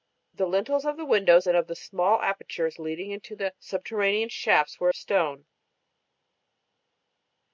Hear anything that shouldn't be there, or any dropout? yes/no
no